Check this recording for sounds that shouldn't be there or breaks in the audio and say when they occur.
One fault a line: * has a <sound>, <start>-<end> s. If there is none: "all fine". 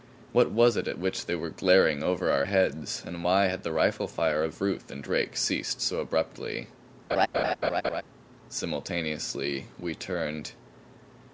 * has a laugh, 7.1-8.0 s